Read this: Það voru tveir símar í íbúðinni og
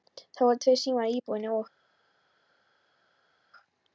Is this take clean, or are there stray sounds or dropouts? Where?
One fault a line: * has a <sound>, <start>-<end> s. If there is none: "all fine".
all fine